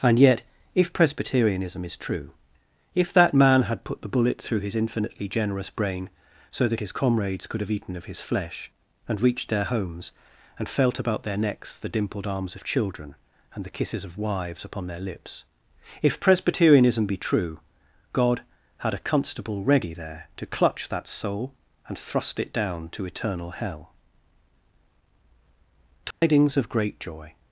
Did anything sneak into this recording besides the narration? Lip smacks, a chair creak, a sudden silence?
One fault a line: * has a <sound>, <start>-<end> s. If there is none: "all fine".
* has a dropout, 26.1-26.2 s